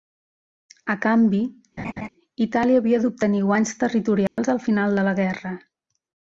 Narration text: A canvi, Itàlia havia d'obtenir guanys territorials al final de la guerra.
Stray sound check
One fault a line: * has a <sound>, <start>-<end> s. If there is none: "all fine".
* has a laugh, 1.8-2.1 s
* has a dropout, 4.3-4.4 s